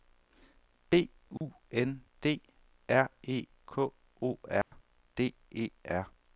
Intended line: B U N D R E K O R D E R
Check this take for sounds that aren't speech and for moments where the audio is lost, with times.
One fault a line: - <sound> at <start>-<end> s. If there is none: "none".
- dropout at 1.4-1.4 s
- dropout at 4.6-4.7 s